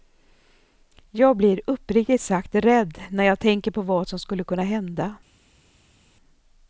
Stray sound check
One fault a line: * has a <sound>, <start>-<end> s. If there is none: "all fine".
all fine